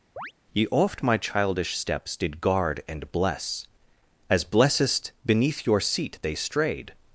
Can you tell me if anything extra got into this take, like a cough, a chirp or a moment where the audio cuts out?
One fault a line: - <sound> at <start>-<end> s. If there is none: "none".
- chirp at 0.2-0.3 s